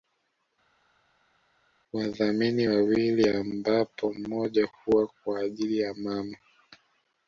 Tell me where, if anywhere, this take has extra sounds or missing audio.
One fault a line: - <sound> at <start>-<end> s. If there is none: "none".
none